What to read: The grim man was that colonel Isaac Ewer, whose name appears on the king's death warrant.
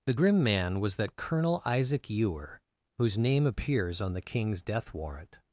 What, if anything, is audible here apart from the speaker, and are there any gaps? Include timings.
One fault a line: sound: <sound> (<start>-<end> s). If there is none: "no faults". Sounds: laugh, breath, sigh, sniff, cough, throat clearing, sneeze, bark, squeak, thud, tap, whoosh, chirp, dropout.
no faults